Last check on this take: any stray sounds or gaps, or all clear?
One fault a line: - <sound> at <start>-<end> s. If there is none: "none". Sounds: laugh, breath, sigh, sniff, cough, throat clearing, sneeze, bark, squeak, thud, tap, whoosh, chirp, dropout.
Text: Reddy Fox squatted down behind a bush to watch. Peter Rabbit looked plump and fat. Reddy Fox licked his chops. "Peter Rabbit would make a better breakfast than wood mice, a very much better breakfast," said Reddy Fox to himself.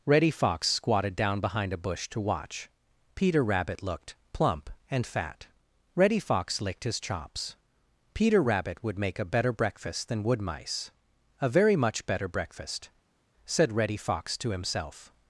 none